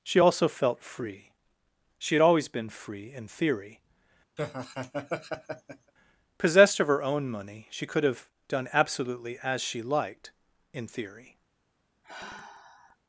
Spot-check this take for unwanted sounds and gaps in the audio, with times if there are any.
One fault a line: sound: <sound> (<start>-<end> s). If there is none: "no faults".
sound: laugh (4.4-5.9 s)
sound: sigh (12.0-13.0 s)